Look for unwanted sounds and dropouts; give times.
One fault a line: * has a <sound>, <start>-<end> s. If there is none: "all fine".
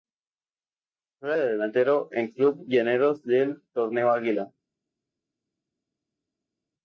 all fine